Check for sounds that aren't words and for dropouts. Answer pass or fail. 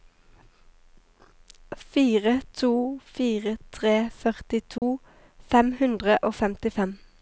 fail